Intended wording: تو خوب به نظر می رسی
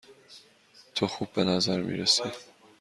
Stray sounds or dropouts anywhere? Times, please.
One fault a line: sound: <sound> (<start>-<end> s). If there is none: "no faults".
no faults